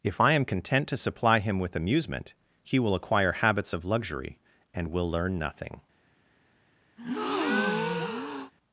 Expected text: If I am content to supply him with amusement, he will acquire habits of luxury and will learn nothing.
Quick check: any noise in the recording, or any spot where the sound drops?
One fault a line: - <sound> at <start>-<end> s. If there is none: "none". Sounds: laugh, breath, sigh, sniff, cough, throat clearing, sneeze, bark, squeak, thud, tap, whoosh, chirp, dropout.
- breath at 7.0-8.5 s